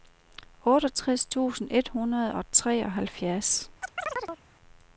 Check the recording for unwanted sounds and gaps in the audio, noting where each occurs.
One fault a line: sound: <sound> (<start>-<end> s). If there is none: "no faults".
sound: chirp (3.8-4.4 s)